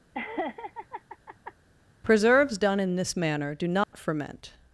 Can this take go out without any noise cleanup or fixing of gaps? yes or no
no